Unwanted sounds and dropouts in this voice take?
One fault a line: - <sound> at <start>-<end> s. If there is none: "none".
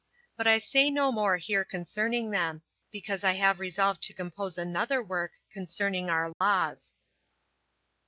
- dropout at 6.3-6.4 s